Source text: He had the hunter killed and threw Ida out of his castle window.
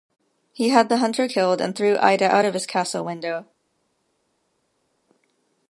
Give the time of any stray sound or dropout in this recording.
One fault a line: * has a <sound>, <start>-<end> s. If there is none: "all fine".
all fine